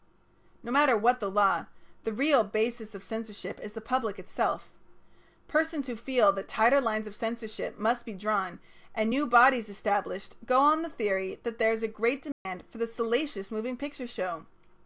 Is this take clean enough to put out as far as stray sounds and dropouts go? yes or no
no